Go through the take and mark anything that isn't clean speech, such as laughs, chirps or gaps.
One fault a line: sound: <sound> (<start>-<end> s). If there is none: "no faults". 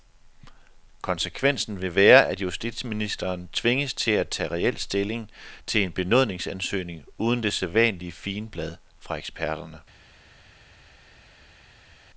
no faults